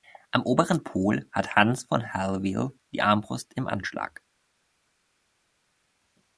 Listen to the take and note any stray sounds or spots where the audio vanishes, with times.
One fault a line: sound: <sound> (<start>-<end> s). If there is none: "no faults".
no faults